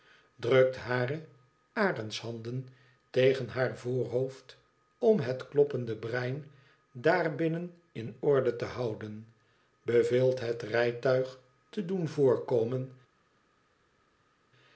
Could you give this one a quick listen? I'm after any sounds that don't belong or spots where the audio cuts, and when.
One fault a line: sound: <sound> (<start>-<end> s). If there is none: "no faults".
no faults